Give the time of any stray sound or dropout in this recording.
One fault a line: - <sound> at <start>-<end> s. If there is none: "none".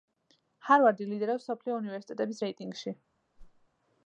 - whoosh at 3.4-3.7 s